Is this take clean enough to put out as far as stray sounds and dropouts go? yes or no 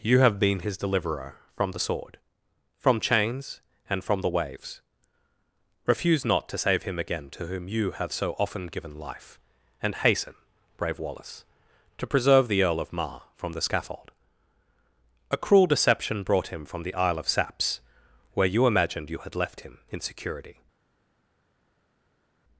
yes